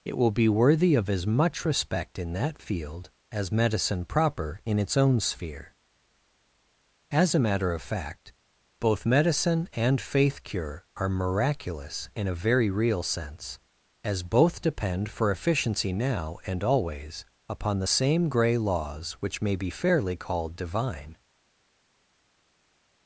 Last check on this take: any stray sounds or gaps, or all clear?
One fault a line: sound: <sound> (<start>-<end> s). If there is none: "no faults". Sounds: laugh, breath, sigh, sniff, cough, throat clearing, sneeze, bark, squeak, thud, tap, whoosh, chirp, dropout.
no faults